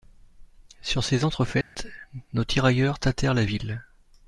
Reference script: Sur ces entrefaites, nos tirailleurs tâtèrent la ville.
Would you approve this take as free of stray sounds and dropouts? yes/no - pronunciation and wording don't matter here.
no